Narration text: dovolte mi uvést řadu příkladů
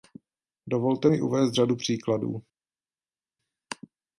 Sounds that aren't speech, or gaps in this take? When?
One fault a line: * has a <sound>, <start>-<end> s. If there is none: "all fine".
all fine